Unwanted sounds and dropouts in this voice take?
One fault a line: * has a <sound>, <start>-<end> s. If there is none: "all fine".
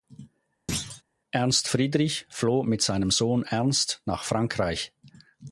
* has a thud, 0.7-1.0 s